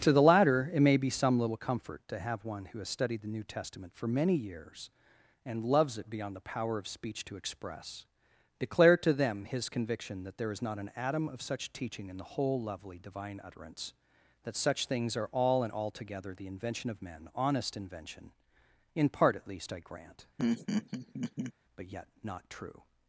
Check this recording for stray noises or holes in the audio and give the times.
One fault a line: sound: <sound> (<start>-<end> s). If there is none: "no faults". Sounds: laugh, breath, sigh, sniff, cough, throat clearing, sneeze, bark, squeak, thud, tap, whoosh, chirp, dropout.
sound: laugh (20.4-21.5 s)